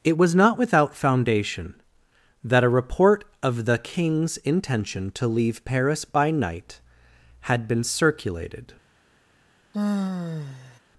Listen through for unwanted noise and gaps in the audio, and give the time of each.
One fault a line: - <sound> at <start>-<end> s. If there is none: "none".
- sigh at 9.7-10.8 s